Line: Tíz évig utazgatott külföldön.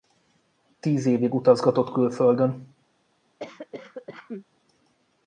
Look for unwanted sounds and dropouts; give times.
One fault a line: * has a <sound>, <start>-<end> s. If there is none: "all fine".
* has a cough, 3.4-4.4 s